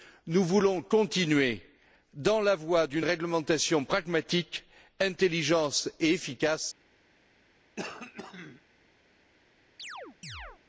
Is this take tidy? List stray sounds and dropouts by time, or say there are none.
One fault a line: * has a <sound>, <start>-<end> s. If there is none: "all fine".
* has a throat clearing, 7.8-8.6 s
* has a chirp, 9.8-10.6 s